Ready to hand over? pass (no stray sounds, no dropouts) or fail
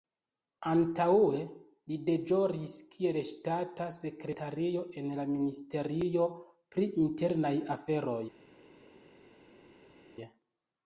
pass